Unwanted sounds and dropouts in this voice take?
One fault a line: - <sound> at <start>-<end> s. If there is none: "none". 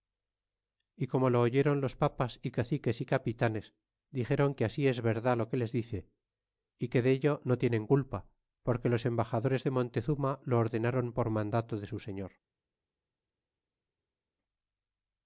none